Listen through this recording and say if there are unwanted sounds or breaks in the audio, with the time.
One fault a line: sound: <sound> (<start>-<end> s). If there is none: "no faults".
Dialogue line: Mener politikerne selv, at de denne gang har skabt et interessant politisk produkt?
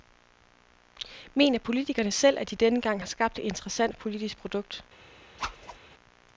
sound: whoosh (5.4-5.8 s)